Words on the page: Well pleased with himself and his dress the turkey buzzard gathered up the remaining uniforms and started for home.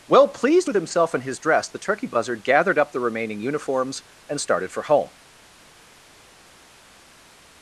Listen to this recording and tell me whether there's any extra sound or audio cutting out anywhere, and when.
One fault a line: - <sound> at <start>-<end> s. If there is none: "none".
none